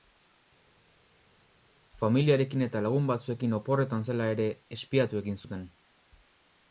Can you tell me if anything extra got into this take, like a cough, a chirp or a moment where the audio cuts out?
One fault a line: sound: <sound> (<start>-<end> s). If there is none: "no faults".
no faults